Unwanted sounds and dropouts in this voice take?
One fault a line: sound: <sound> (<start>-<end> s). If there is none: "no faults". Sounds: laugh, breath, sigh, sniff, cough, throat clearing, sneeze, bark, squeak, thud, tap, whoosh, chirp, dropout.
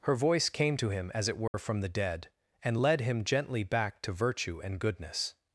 sound: dropout (1.5-1.5 s)